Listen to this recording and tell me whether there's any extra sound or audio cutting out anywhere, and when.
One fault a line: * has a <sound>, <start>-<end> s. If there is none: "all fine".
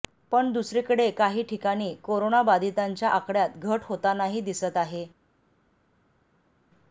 all fine